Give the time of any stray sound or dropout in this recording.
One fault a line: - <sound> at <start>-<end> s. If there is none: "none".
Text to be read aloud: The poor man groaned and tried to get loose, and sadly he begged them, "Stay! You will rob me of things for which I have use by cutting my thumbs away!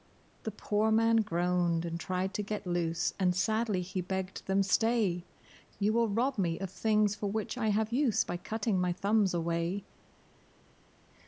none